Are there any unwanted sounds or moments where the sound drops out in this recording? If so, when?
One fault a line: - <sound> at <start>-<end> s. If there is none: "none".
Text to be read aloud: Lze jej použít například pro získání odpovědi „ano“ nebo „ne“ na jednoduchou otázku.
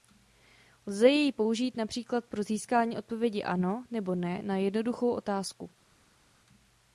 none